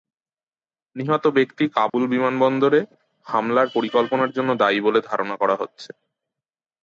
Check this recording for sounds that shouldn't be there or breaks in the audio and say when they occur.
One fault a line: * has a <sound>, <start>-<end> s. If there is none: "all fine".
* has a dropout, 1.9-1.9 s